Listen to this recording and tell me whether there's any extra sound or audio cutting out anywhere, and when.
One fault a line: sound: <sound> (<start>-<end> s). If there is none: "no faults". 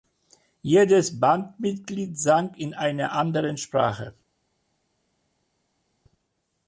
no faults